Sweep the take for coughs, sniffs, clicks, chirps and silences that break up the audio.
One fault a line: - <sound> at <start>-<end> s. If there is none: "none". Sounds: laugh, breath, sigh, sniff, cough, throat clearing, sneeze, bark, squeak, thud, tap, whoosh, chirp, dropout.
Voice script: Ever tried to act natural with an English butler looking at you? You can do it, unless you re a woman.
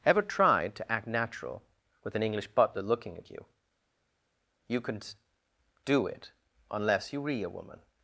none